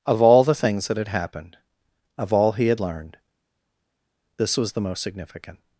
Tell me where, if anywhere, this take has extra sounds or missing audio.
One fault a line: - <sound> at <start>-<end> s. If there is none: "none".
none